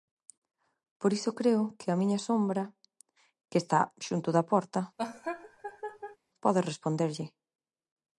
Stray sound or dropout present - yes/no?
yes